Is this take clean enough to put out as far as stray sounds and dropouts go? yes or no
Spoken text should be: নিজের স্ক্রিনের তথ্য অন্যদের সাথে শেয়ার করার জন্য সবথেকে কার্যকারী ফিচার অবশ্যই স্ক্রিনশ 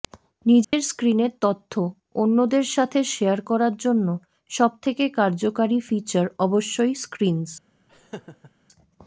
no